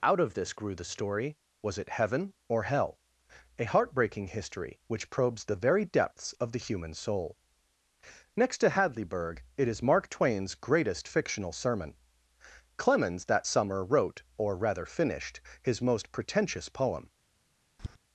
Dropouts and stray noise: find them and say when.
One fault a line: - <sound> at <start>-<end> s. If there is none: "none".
- tap at 17.8-18.0 s